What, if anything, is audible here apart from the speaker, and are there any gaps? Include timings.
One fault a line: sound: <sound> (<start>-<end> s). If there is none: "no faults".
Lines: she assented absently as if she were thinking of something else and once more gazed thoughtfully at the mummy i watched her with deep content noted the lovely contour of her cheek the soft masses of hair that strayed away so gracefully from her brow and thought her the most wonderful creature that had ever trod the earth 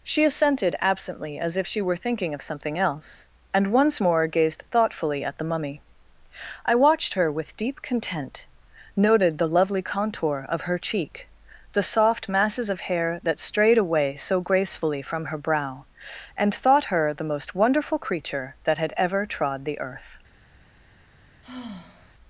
sound: sigh (21.4-22.1 s)